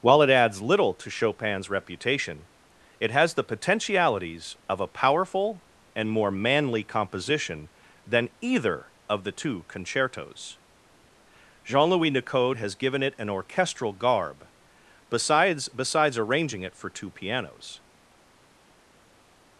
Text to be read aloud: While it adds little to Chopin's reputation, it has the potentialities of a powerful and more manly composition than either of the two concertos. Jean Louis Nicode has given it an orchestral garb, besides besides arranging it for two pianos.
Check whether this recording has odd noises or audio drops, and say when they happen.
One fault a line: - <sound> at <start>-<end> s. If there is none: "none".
none